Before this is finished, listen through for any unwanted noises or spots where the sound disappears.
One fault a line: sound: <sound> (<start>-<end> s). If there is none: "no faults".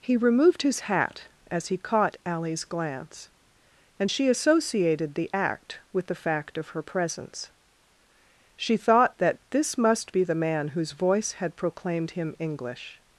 no faults